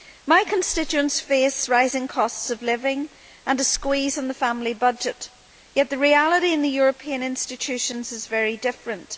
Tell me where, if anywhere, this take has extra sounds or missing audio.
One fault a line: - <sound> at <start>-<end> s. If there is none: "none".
none